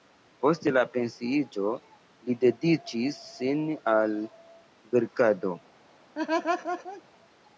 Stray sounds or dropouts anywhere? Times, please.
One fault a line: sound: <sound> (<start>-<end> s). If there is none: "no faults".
sound: laugh (6.1-7.0 s)